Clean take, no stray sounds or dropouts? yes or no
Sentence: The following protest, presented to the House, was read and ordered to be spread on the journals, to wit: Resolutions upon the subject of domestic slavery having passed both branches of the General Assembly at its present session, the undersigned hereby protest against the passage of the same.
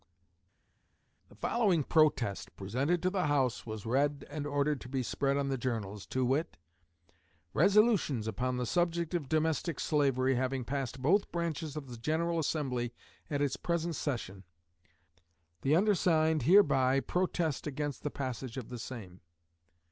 yes